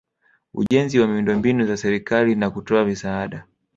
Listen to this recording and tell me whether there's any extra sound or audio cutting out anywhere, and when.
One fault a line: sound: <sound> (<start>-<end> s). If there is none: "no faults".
sound: dropout (0.7-0.7 s)